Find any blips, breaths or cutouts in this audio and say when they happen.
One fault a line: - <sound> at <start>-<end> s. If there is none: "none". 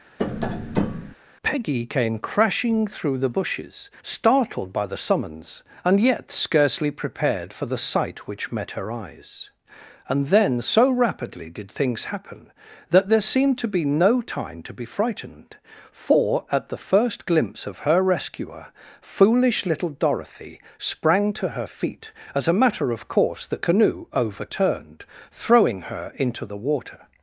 - tap at 0.2-1.2 s